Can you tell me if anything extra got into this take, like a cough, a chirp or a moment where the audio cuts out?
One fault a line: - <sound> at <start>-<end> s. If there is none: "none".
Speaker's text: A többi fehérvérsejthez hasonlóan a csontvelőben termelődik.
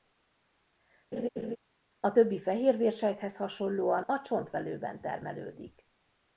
- laugh at 1.1-1.6 s